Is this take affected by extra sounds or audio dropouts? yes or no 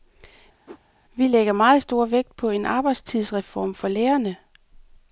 yes